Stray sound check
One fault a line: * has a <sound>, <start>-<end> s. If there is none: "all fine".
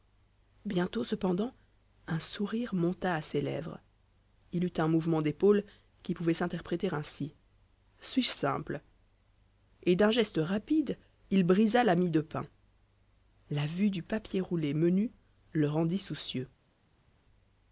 all fine